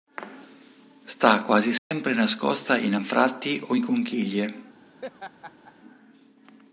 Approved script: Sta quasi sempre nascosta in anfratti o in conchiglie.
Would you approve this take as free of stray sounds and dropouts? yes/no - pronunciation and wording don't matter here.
no